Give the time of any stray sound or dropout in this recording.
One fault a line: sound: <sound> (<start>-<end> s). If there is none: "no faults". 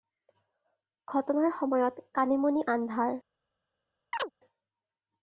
sound: chirp (4.1-4.3 s)